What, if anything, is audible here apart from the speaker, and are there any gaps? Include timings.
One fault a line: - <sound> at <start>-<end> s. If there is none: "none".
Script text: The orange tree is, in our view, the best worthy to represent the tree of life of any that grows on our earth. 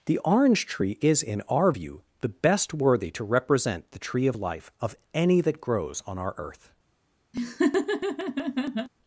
- laugh at 7.3-8.9 s